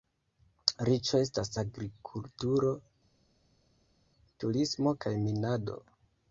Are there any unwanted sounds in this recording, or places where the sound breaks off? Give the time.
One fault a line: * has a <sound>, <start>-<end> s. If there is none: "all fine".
all fine